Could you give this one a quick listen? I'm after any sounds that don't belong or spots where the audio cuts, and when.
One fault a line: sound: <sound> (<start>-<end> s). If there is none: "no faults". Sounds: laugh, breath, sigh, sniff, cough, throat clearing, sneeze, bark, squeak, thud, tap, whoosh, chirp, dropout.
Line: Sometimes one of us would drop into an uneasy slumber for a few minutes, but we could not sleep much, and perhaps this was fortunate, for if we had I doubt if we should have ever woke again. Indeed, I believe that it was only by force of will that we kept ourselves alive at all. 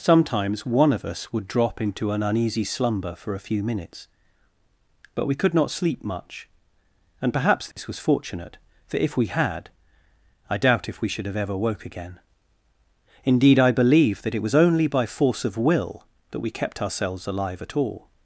sound: dropout (7.7-7.8 s)